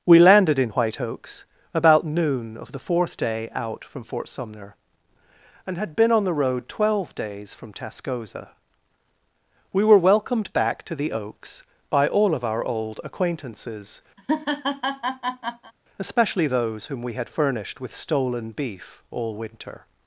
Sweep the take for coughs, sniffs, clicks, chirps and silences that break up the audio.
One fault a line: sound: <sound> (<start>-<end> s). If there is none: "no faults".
sound: laugh (14.2-15.7 s)